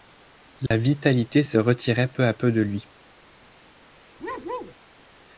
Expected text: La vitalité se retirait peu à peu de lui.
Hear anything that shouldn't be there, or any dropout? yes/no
yes